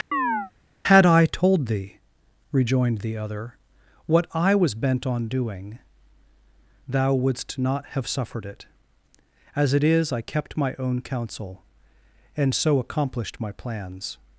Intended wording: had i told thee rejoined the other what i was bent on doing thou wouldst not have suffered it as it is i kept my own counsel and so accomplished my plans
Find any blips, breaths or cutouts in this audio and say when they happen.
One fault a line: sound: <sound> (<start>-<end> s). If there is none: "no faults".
sound: chirp (0.1-0.5 s)